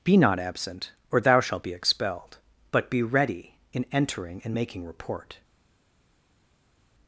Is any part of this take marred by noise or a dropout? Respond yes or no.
no